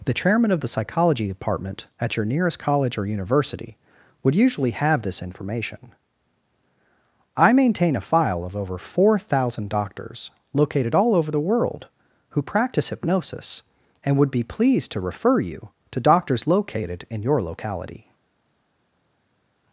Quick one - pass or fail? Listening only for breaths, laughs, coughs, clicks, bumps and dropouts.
pass